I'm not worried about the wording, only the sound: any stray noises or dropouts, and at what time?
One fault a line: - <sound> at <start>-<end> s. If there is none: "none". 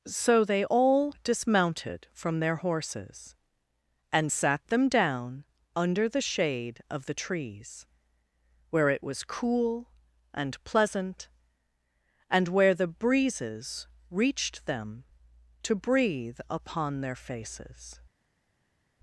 none